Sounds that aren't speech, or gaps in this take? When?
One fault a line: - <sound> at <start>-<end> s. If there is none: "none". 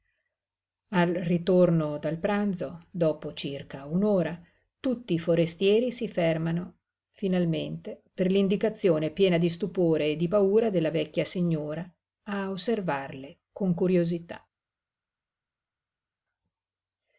none